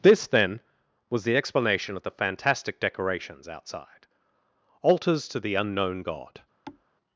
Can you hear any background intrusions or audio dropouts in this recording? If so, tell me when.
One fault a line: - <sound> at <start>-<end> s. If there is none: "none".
- thud at 6.7-6.9 s